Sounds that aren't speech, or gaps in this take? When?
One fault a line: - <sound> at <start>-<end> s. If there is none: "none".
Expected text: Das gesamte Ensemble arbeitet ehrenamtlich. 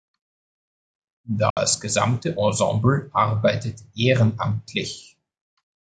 - dropout at 1.5-1.6 s